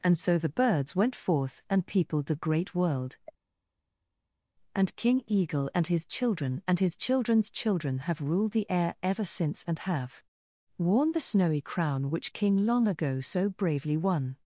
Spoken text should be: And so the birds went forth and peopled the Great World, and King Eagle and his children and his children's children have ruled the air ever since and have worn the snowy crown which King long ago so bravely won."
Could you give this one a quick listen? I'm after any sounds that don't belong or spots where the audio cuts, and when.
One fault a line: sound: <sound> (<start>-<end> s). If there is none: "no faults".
no faults